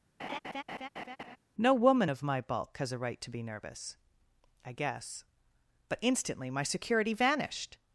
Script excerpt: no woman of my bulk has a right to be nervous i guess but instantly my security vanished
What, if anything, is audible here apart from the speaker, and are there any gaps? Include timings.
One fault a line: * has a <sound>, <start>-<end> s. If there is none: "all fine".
* has a laugh, 0.2-1.4 s